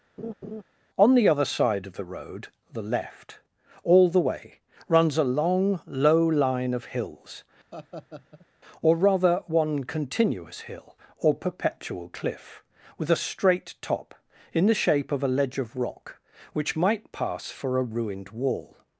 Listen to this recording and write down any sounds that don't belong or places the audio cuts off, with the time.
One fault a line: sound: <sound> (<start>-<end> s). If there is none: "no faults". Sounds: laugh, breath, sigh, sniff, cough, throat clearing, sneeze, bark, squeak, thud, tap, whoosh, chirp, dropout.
sound: laugh (0.2-0.6 s)
sound: laugh (7.7-8.5 s)